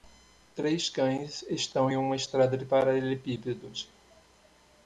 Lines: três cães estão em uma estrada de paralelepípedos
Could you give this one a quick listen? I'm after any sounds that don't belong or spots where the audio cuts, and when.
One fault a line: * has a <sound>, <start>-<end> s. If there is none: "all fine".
all fine